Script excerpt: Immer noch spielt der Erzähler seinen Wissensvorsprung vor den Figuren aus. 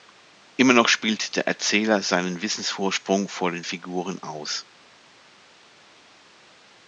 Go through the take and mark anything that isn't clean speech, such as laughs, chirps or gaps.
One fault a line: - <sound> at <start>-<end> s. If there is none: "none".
none